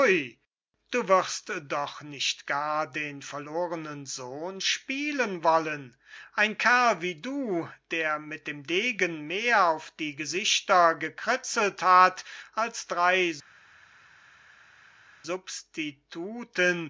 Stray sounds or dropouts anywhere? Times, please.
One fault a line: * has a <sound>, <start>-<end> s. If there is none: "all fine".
all fine